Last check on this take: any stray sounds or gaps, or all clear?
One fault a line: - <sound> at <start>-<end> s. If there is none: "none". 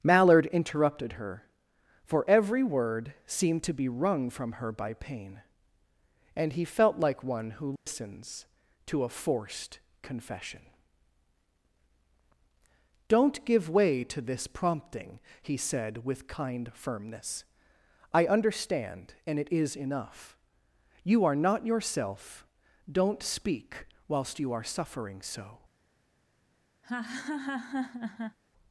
- dropout at 7.8-7.9 s
- laugh at 26.8-28.4 s